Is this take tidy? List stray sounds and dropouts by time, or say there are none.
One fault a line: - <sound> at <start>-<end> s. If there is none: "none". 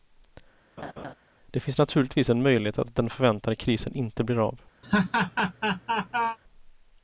- laugh at 0.8-1.1 s
- laugh at 4.8-6.4 s